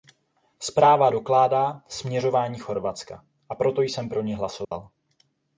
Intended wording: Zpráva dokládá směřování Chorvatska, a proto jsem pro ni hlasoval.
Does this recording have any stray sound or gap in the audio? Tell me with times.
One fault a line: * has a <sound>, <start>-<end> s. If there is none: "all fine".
* has a dropout, 4.6-4.7 s